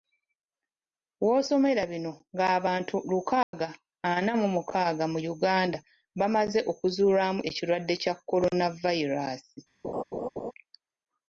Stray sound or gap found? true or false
true